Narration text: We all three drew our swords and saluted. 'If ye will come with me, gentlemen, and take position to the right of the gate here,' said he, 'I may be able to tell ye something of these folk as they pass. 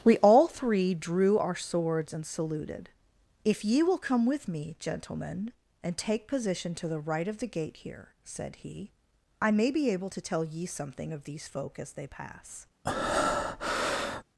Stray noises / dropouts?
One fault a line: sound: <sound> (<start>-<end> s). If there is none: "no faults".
sound: breath (12.8-14.2 s)